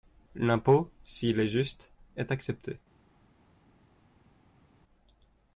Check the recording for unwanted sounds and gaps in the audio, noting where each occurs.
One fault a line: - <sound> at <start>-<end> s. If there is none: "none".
none